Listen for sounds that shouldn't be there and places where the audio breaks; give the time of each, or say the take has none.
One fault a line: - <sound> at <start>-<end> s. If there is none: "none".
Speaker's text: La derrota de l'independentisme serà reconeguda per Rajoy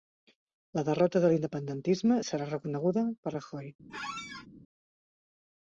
- squeak at 3.9-4.5 s